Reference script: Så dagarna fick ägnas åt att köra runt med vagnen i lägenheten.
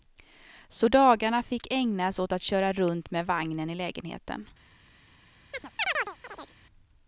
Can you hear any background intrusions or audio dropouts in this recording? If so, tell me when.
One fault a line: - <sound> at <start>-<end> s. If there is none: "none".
- chirp at 5.5-6.5 s